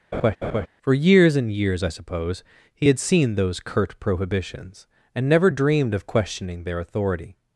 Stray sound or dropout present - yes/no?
yes